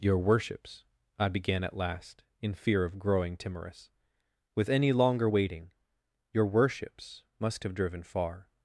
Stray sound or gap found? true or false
false